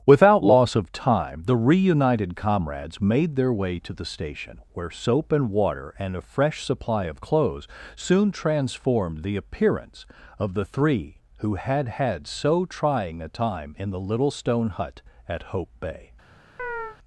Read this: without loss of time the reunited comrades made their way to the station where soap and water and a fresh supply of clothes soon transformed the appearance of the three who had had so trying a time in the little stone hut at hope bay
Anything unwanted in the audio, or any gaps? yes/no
yes